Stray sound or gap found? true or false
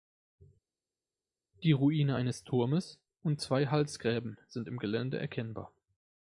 false